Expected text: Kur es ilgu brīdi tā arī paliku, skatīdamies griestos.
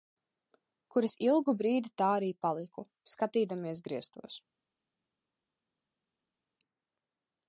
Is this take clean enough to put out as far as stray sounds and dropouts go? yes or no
yes